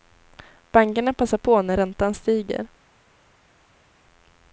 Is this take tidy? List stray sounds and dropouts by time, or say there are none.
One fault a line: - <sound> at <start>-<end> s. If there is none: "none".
none